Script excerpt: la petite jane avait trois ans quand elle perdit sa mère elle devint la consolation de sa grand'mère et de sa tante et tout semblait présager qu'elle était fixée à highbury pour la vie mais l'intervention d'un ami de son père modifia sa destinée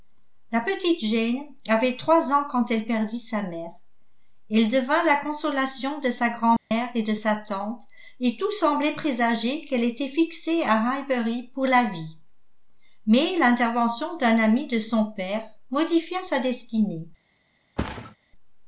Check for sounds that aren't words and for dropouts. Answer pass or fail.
fail